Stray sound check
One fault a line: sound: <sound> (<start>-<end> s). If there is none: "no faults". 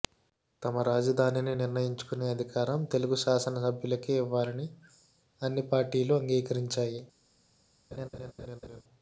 sound: laugh (7.9-8.8 s)